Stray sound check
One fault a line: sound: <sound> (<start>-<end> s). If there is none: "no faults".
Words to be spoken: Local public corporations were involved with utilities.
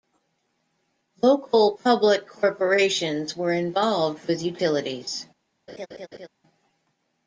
sound: laugh (5.7-6.3 s)